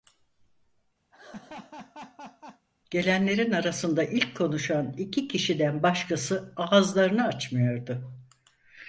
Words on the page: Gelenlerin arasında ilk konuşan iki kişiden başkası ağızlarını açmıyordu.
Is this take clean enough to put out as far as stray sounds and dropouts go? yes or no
no